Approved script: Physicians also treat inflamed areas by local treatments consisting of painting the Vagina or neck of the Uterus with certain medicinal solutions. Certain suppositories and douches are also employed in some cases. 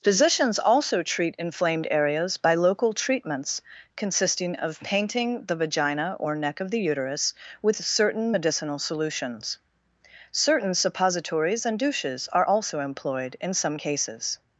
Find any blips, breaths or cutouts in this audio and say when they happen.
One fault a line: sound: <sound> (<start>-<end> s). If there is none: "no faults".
no faults